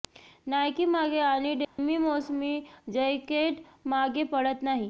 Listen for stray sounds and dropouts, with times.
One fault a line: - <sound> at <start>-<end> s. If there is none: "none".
- dropout at 1.6-1.8 s